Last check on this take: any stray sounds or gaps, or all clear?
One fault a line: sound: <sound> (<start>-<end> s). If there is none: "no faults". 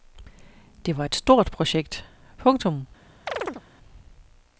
sound: chirp (3.3-3.6 s)